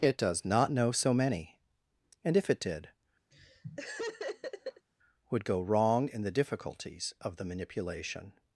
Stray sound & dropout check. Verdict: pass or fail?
fail